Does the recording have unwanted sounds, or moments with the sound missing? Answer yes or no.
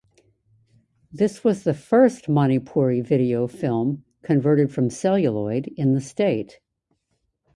no